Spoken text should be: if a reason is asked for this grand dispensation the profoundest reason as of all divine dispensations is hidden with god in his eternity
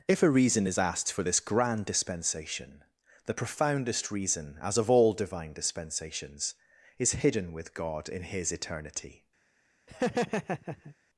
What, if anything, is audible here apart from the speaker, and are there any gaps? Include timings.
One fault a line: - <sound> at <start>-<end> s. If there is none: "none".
- laugh at 9.9-11.0 s